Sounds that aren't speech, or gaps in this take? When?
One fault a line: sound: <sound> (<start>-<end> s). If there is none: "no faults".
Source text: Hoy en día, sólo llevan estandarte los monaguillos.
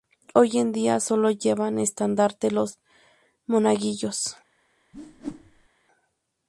sound: whoosh (4.9-5.7 s)